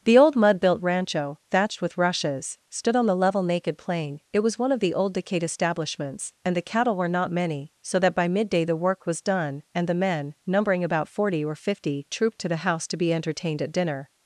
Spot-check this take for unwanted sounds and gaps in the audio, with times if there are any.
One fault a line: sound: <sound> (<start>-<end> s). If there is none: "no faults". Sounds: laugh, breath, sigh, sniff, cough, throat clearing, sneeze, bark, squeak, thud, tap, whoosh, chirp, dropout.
no faults